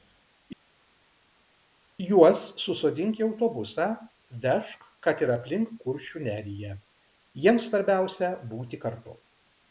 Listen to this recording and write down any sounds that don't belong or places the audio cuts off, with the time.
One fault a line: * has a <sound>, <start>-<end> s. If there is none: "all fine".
all fine